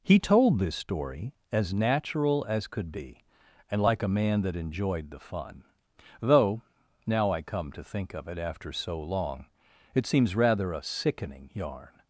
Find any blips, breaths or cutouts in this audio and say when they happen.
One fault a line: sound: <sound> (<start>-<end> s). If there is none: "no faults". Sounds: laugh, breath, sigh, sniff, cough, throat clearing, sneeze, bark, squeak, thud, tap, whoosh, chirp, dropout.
no faults